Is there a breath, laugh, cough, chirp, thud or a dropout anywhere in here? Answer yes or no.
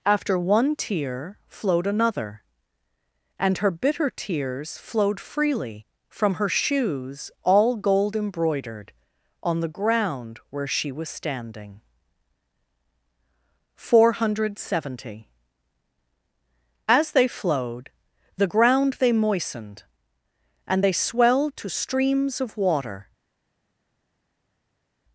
no